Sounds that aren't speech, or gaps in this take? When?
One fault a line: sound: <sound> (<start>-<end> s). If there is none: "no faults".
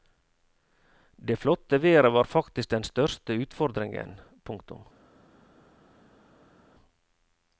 no faults